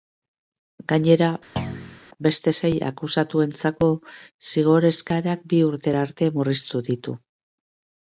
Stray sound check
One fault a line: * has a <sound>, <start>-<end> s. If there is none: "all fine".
* has a thud, 1.6-2.0 s